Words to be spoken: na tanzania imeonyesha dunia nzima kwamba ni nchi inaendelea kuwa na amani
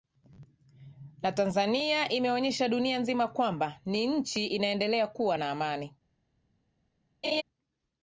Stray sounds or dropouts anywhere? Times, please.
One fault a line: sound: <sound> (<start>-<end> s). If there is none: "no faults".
sound: laugh (7.2-7.4 s)